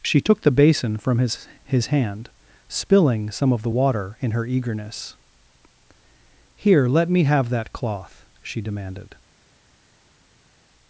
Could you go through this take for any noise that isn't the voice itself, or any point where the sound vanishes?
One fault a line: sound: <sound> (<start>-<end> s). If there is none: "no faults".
no faults